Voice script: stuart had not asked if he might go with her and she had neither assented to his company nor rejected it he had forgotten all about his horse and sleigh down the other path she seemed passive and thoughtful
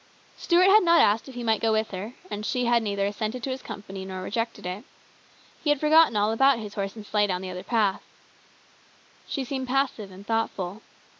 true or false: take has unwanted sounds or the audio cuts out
false